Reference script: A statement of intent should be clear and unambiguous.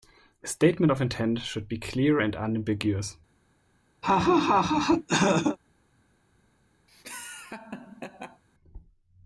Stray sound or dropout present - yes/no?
yes